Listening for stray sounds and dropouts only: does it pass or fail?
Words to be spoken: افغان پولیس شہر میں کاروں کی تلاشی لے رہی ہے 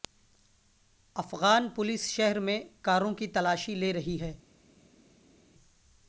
pass